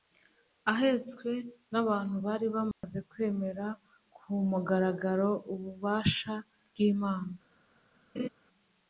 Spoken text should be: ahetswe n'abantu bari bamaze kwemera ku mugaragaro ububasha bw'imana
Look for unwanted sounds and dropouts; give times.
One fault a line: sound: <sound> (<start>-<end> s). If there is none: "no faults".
sound: dropout (2.7-2.8 s)
sound: laugh (8.2-8.3 s)